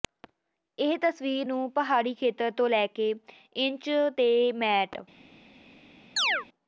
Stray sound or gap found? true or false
true